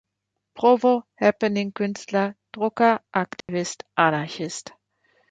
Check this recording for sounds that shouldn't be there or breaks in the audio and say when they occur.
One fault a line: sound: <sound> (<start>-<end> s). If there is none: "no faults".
sound: dropout (3.4-3.5 s)